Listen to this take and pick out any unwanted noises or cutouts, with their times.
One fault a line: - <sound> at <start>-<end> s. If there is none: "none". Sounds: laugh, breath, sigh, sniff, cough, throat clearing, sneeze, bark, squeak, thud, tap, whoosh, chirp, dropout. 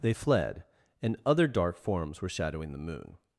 none